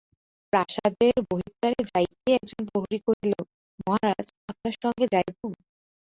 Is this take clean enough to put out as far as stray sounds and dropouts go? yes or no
no